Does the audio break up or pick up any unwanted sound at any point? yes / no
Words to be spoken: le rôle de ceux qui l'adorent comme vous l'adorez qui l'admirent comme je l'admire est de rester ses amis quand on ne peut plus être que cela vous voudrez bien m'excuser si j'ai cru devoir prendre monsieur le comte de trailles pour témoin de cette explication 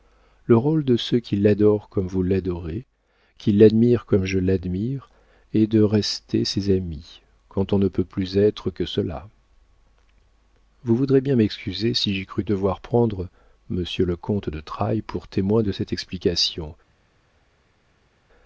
no